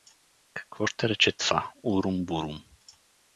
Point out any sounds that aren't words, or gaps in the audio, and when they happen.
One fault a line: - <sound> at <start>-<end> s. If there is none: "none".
none